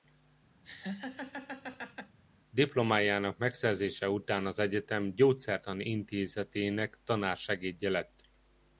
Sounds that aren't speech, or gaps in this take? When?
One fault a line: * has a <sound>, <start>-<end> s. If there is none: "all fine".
* has a laugh, 0.6-2.2 s